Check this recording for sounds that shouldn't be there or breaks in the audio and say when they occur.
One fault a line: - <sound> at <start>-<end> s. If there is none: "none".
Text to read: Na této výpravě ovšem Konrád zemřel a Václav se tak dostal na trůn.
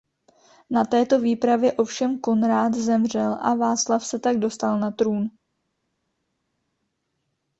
none